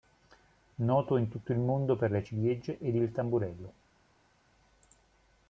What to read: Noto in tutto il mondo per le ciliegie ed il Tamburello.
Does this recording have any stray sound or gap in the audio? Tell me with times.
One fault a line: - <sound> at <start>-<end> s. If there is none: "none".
none